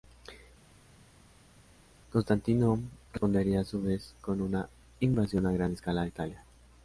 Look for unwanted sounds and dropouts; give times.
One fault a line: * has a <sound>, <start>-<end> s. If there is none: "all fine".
all fine